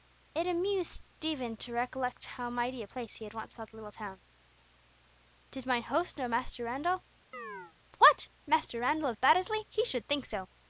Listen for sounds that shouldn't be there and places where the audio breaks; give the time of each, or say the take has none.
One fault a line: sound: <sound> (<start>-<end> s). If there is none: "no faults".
sound: chirp (7.3-7.7 s)